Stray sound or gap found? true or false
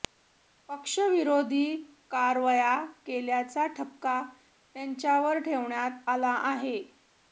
false